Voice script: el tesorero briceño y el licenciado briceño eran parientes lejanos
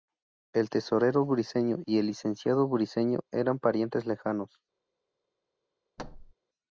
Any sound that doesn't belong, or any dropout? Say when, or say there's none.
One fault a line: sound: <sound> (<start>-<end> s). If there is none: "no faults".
sound: thud (6.0-6.3 s)